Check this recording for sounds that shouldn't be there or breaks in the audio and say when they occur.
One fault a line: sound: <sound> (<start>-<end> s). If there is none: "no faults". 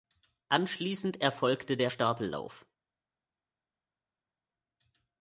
no faults